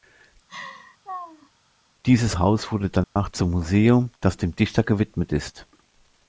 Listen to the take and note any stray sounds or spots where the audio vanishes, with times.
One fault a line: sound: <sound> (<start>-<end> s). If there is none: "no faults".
sound: laugh (0.5-1.5 s)
sound: dropout (3.0-3.2 s)